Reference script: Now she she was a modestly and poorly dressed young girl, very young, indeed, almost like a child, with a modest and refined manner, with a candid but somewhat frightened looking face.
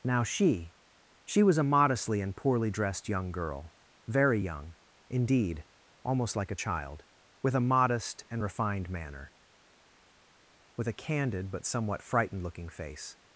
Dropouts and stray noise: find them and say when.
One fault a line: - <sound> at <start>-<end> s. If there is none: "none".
none